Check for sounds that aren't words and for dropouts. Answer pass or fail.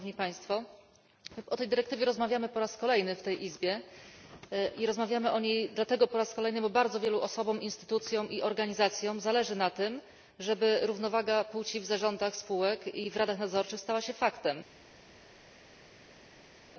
pass